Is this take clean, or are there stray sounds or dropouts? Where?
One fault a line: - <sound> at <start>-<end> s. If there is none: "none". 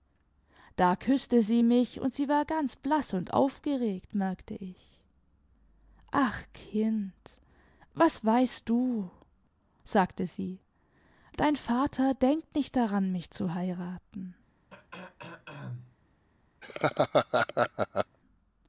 - throat clearing at 14.7-16.0 s
- laugh at 16.6-18.2 s